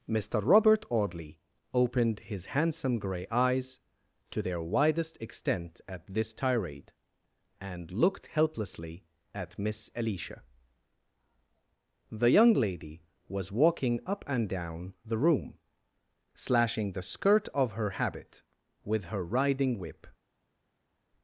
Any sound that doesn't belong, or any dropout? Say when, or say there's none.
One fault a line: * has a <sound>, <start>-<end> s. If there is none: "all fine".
all fine